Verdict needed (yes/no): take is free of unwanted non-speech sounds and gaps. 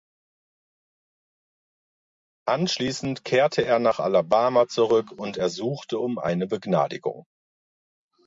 yes